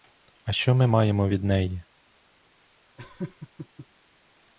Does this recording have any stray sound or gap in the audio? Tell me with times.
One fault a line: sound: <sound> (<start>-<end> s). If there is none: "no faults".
sound: laugh (3.0-3.9 s)